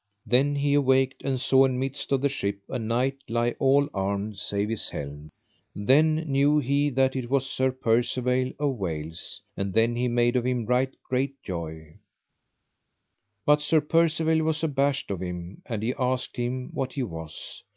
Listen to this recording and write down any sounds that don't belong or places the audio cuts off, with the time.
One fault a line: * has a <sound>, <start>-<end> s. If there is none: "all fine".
all fine